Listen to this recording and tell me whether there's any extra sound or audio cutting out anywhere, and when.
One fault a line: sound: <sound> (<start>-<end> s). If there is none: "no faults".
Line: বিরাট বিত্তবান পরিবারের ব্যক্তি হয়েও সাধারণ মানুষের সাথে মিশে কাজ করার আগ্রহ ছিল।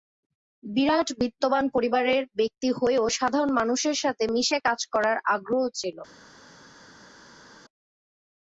no faults